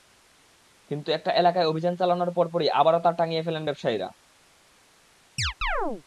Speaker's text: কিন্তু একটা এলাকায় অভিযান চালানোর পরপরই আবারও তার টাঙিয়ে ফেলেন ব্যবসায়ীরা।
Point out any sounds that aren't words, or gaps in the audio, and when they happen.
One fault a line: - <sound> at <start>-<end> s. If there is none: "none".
- chirp at 5.4-6.0 s